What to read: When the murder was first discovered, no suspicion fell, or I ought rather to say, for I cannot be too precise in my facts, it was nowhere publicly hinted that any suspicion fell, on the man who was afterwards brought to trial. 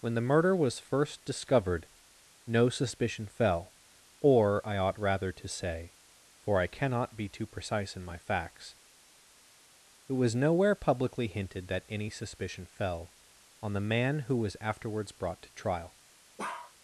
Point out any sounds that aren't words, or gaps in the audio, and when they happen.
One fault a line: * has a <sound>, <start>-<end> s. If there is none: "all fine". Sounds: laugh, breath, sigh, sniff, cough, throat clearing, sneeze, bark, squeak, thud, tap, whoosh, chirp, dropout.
* has a bark, 16.4-16.7 s